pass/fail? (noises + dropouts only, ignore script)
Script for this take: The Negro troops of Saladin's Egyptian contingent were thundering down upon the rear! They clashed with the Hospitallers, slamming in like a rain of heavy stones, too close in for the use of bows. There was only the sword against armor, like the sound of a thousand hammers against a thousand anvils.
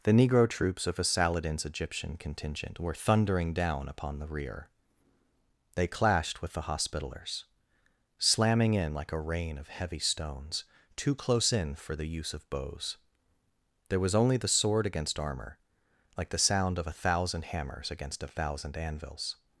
pass